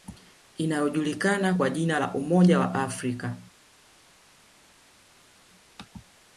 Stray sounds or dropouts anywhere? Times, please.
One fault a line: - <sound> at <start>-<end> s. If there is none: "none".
none